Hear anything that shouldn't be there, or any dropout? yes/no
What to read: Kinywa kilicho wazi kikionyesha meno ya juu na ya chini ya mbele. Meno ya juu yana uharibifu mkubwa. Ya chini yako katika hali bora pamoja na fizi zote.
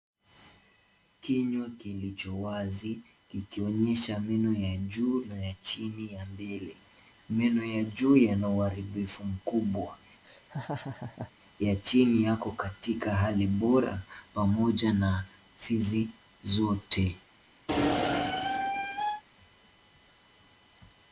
yes